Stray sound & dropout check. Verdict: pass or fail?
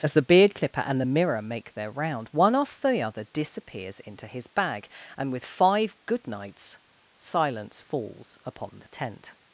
pass